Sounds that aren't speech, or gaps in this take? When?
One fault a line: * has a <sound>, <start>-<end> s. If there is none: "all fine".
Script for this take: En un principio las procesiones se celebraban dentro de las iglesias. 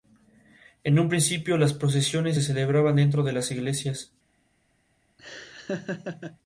* has a laugh, 5.2-6.4 s